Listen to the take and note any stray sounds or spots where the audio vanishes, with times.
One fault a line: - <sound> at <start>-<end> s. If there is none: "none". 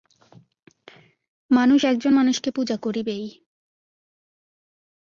none